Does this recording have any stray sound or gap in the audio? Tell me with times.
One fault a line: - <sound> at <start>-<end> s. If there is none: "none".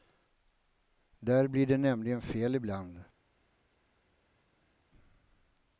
none